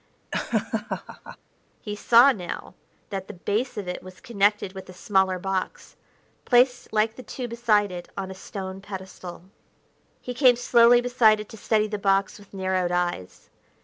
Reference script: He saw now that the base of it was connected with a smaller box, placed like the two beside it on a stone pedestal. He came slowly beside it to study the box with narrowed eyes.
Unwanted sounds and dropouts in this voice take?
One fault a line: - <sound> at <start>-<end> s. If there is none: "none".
- laugh at 0.3-1.4 s